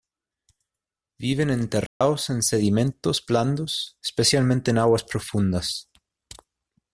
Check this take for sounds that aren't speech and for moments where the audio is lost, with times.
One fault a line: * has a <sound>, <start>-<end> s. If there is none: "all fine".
* has a dropout, 1.9-2.0 s